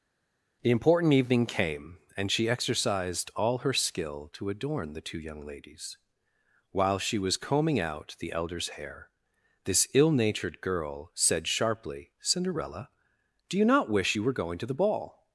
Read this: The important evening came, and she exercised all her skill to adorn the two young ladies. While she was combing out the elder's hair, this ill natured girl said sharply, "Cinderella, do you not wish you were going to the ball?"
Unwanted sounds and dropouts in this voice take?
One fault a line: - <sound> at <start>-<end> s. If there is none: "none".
none